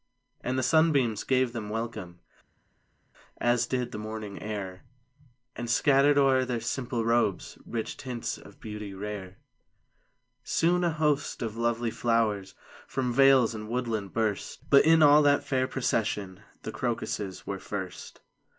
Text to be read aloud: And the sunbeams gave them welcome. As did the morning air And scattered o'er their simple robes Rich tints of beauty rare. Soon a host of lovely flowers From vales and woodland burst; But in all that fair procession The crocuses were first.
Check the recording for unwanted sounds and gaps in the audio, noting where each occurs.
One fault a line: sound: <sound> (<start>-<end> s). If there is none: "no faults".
no faults